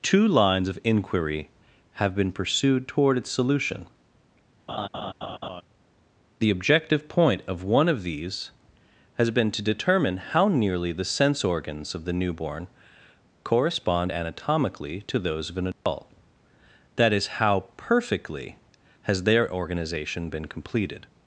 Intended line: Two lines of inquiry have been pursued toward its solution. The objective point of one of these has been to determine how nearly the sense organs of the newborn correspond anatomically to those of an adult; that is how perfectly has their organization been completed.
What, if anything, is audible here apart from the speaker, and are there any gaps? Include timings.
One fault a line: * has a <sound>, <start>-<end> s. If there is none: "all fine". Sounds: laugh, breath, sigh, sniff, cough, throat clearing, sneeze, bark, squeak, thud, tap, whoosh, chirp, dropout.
* has a laugh, 4.7-5.6 s
* has a dropout, 15.7-15.9 s